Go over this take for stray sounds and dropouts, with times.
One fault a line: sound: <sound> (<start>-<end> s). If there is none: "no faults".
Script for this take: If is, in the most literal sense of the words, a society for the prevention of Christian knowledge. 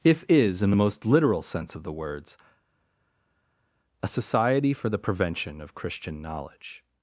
no faults